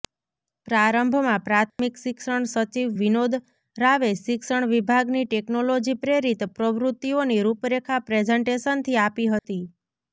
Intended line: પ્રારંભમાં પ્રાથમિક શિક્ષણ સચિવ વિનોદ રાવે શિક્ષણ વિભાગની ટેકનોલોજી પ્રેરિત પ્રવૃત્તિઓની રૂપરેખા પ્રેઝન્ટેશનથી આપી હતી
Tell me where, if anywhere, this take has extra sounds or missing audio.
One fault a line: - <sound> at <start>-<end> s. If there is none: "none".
- dropout at 1.7-1.8 s
- dropout at 9.4-9.4 s